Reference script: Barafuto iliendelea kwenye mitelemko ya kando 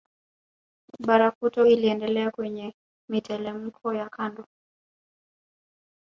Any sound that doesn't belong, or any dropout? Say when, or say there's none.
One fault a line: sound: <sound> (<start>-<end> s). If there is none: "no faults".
no faults